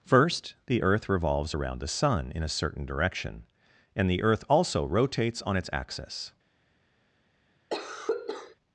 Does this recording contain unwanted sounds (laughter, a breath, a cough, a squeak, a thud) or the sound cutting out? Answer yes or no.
yes